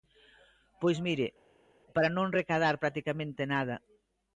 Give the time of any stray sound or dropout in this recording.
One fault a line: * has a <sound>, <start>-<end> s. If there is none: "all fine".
all fine